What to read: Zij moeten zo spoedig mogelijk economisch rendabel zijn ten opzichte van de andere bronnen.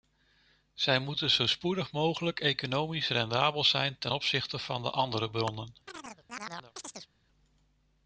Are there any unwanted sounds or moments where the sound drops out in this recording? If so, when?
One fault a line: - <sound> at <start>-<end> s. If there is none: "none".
- chirp at 5.9-7.1 s